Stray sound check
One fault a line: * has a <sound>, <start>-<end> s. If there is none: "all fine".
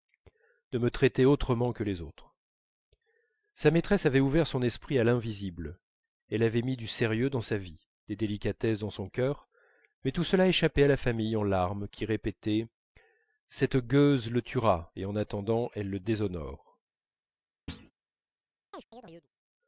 * has a thud, 17.7-17.9 s
* has a chirp, 18.7-19.3 s